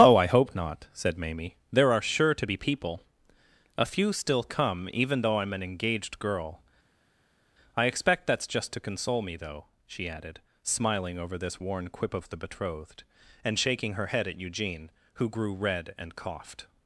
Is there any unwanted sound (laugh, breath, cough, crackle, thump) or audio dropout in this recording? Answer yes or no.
no